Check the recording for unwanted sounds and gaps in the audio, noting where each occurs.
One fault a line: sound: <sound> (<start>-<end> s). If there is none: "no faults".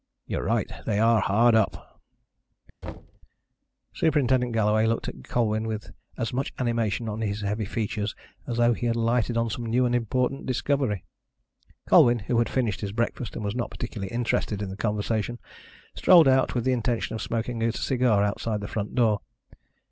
sound: thud (2.8-3.2 s)